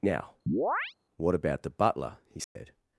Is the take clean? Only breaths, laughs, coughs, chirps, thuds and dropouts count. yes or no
no